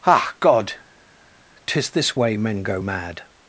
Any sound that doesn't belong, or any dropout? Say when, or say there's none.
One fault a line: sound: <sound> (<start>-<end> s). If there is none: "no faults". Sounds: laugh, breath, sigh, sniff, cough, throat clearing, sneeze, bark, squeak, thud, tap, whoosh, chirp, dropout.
no faults